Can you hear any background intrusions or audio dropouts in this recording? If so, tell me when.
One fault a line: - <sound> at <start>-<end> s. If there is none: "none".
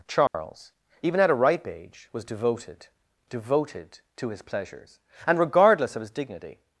- dropout at 0.3-0.3 s